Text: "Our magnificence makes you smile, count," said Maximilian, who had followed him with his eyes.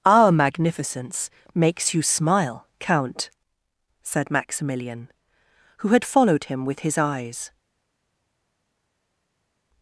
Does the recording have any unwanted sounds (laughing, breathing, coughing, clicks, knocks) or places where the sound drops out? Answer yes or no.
no